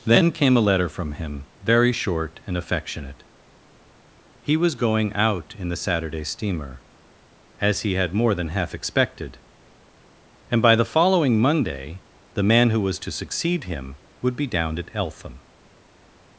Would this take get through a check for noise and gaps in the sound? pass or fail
pass